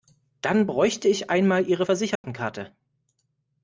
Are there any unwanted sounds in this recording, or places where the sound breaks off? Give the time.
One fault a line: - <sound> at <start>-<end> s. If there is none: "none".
- dropout at 2.2-2.2 s